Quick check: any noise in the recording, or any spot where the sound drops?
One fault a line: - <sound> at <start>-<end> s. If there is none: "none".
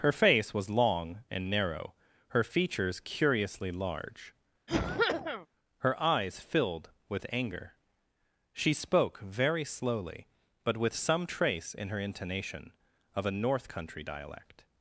- cough at 4.7-5.5 s